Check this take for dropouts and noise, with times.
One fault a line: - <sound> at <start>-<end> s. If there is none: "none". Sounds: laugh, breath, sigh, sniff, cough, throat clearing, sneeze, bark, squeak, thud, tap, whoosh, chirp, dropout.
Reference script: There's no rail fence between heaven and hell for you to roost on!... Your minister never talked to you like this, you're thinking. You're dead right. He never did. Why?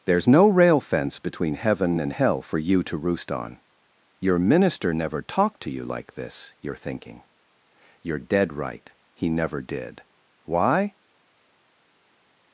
none